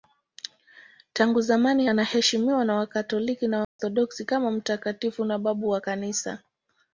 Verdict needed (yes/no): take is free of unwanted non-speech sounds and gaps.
no